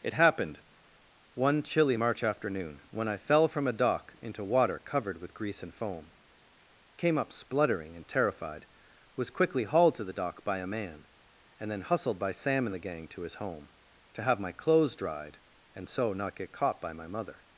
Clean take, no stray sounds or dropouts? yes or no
yes